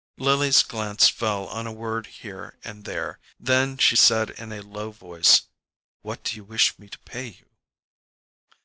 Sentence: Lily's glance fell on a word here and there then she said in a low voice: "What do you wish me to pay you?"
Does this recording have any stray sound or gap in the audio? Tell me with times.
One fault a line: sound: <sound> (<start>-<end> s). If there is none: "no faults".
no faults